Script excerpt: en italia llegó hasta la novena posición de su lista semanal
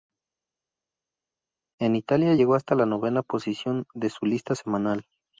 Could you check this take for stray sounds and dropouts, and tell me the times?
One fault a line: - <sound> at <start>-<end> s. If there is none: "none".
none